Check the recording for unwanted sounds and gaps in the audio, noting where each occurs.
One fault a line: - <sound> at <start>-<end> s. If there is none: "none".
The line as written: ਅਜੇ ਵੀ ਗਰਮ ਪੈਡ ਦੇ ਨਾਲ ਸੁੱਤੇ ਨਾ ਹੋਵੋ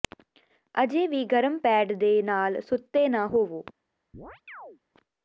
- chirp at 4.1-4.8 s